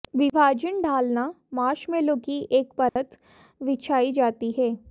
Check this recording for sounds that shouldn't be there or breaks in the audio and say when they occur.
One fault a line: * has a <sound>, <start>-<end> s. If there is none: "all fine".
* has a dropout, 2.9-3.0 s